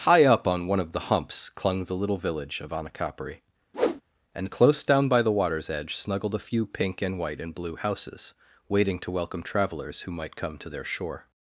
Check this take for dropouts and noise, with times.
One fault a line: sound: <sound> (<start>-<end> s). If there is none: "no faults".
sound: whoosh (3.7-4.0 s)